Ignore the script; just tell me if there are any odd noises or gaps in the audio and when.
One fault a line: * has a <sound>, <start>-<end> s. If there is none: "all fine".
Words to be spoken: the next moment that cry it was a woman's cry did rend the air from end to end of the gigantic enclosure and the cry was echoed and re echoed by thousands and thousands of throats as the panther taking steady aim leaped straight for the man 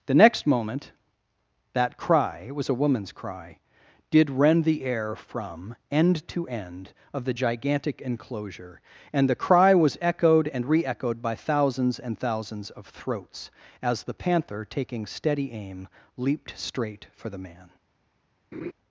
* has a laugh, 18.5-18.7 s